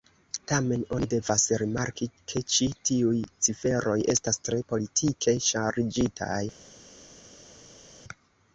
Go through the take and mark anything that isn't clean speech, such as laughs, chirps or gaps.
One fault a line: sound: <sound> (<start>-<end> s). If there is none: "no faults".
no faults